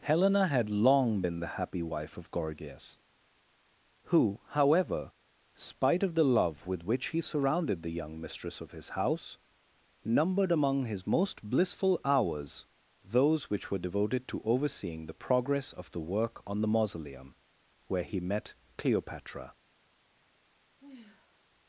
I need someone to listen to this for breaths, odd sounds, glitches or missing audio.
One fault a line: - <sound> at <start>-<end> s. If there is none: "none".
- sigh at 20.8-21.4 s